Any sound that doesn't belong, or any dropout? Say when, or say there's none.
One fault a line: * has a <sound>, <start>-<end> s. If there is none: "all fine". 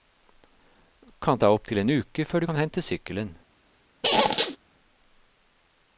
* has a squeak, 4.0-4.6 s